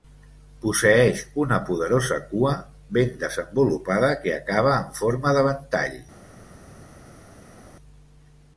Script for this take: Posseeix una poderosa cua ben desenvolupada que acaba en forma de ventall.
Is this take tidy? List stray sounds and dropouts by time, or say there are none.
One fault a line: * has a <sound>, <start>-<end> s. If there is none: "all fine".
all fine